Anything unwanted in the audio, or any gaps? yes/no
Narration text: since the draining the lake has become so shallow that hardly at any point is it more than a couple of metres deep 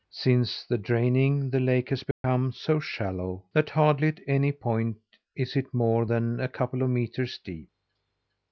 yes